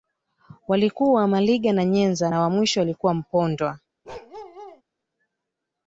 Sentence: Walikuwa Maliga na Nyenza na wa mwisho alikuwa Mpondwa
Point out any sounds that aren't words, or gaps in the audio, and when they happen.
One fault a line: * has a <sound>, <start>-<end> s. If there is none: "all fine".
* has a bark, 4.0-4.8 s